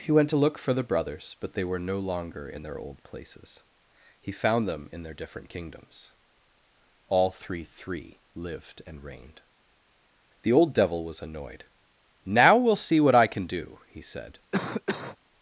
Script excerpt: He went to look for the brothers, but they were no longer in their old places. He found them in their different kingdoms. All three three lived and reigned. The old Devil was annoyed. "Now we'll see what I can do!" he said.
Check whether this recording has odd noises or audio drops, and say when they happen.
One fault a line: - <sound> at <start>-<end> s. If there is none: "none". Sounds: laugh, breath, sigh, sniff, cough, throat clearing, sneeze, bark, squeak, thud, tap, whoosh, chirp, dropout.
- cough at 14.5-15.2 s